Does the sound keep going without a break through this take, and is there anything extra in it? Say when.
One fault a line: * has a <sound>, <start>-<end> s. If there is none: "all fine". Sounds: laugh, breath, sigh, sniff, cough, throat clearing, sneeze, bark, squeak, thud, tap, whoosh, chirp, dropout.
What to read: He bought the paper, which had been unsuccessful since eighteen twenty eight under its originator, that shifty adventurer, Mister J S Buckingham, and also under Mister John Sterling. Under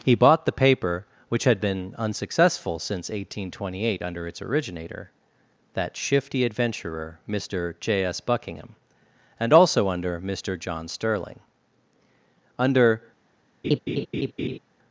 * has a laugh, 13.6-14.6 s